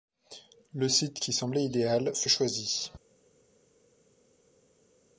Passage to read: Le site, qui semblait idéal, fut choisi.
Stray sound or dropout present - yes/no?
no